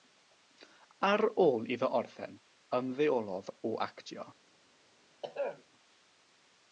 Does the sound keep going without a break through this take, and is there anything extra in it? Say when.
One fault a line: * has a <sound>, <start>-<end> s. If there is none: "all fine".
* has a throat clearing, 5.2-5.6 s